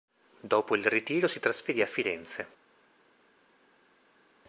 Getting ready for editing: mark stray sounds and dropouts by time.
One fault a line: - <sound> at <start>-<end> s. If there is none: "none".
none